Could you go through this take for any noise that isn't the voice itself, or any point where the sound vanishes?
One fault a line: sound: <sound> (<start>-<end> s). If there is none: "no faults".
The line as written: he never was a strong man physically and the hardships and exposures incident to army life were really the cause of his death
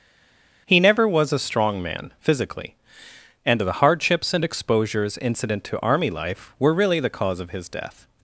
no faults